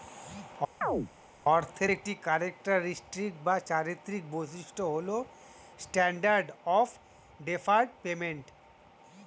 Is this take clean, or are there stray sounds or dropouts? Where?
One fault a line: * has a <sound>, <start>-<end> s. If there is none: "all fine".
* has a chirp, 0.8-1.1 s